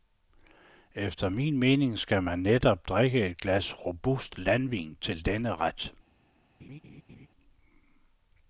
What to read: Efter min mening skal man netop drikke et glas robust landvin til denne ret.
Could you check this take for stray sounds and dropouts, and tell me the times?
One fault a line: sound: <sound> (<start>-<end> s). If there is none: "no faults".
sound: laugh (6.6-7.3 s)